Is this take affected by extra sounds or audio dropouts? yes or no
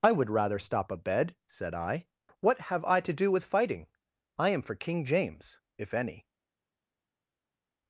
no